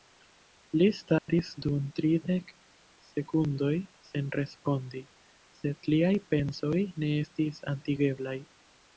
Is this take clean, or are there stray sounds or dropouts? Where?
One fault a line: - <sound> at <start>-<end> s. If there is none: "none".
- dropout at 1.2-1.3 s